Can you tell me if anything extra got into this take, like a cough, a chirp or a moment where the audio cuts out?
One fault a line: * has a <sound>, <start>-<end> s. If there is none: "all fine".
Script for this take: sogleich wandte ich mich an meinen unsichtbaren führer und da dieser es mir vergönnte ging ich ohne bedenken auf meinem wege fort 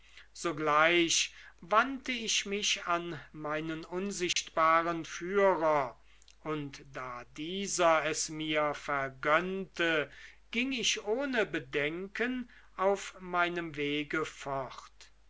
* has a dropout, 4.3-4.4 s